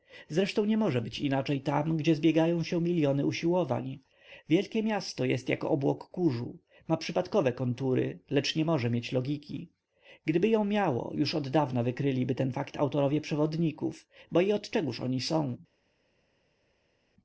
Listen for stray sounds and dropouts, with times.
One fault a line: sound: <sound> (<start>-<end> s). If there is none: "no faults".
no faults